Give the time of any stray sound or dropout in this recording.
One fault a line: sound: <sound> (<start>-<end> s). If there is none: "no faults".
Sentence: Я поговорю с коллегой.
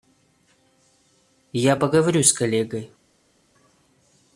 no faults